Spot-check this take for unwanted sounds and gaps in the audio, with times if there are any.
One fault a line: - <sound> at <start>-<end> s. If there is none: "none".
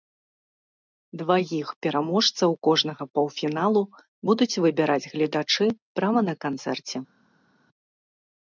none